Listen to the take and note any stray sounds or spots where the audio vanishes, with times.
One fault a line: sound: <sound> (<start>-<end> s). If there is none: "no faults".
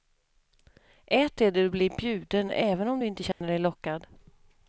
sound: dropout (3.3-3.4 s)